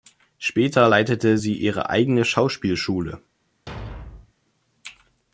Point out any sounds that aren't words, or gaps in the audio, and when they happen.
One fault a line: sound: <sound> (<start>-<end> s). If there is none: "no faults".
sound: thud (3.7-4.3 s)